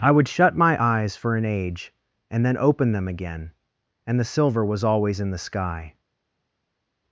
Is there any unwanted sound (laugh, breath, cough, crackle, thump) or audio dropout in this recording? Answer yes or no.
no